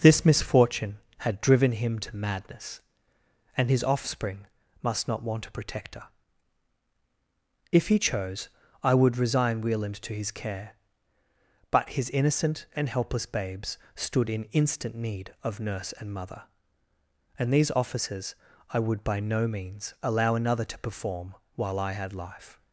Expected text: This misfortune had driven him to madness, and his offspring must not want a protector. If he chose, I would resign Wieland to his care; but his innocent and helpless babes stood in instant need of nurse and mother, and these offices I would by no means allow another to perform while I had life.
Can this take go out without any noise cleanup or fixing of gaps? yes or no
yes